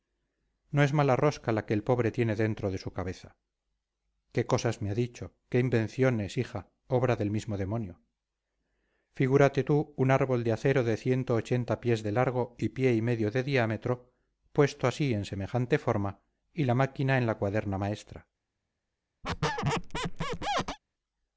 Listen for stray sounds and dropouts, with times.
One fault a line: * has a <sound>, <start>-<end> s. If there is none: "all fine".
* has a squeak, 19.2-20.8 s